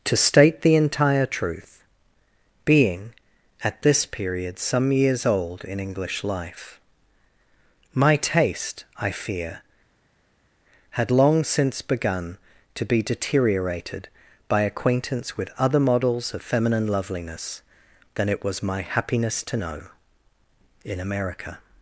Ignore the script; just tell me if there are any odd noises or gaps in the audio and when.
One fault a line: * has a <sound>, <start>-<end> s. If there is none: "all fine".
all fine